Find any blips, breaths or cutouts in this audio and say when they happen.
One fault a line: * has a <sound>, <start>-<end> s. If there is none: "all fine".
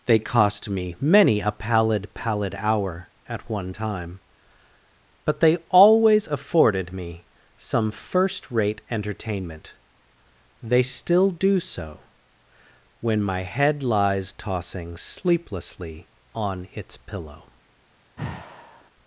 * has a sigh, 18.2-18.9 s